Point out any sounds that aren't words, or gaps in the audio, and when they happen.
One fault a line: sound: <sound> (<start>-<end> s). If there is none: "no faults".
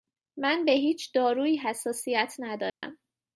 sound: dropout (2.7-2.8 s)